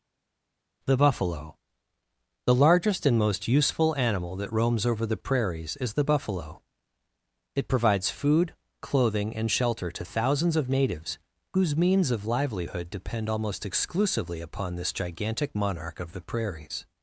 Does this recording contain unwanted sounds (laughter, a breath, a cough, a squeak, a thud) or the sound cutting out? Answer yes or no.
no